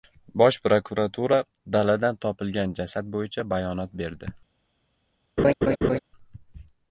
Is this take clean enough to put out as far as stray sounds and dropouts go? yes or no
no